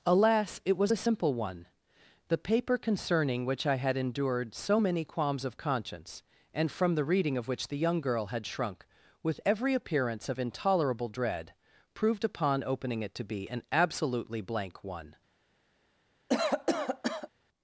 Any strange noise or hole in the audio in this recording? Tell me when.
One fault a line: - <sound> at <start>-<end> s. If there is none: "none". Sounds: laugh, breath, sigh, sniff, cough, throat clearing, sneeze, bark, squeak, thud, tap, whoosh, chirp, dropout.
- cough at 16.3-17.3 s